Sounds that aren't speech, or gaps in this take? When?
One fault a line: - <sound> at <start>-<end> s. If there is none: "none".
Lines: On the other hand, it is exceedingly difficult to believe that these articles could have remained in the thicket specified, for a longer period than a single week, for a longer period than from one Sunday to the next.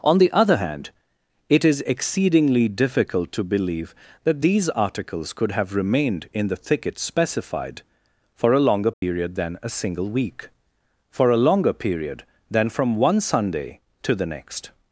- dropout at 8.9-9.0 s